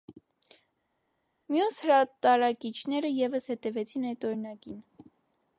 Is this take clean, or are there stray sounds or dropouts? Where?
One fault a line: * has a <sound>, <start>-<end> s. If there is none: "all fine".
all fine